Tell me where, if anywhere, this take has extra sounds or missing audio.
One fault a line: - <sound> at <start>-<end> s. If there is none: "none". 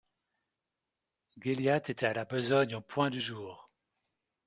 none